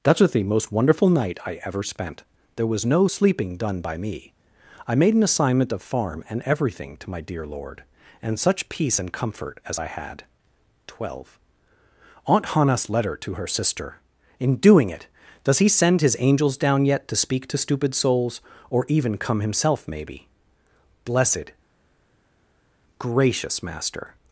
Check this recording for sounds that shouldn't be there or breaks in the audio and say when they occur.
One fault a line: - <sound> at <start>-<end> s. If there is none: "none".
none